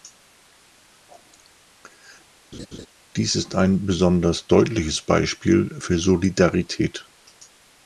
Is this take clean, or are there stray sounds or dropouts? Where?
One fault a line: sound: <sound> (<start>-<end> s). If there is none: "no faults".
sound: laugh (2.5-2.9 s)